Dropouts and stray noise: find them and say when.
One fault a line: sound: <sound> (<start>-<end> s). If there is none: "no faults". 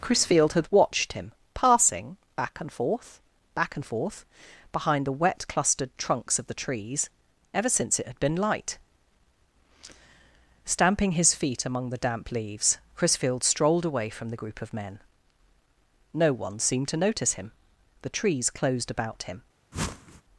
sound: whoosh (19.7-20.2 s)